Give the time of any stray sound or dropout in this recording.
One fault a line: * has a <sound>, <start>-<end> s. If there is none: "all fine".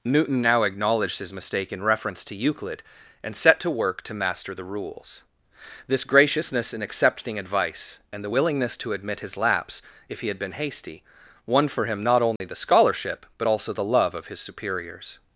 * has a dropout, 12.4-12.4 s